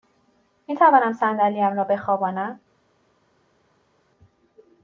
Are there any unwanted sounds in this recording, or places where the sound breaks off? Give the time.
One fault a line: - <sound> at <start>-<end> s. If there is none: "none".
none